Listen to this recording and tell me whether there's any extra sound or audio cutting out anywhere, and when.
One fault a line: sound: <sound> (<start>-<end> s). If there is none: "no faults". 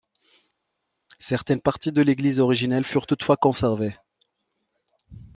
no faults